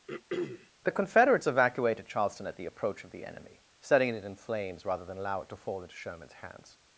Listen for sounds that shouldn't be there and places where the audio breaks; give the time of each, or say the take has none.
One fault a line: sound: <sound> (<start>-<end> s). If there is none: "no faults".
sound: throat clearing (0.1-0.7 s)